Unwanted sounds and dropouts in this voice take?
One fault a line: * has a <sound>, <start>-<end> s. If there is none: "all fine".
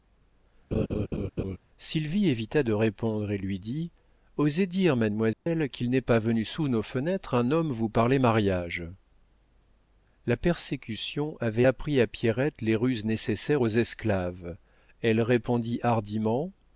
* has a laugh, 0.7-1.6 s
* has a dropout, 5.3-5.5 s